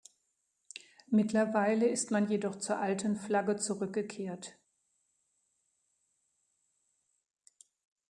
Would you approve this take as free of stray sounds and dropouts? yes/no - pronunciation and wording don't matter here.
yes